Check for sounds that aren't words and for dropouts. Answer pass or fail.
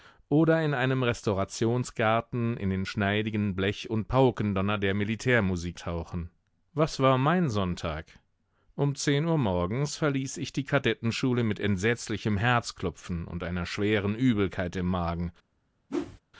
fail